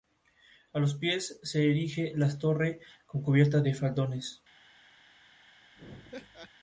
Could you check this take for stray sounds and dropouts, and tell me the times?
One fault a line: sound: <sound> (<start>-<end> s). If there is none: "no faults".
sound: laugh (5.8-6.5 s)